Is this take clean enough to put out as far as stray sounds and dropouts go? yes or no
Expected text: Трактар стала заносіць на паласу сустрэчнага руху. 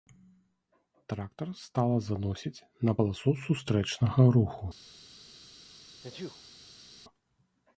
no